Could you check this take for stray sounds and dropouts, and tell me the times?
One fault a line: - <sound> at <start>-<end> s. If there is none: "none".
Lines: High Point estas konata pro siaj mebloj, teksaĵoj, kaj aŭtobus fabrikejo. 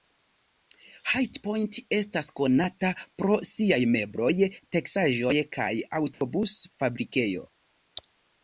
- dropout at 6.1-6.2 s